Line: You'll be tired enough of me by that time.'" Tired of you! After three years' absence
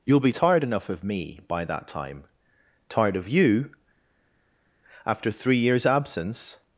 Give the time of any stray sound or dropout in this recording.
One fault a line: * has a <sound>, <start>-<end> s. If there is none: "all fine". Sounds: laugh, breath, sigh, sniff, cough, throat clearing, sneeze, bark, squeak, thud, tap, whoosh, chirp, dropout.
all fine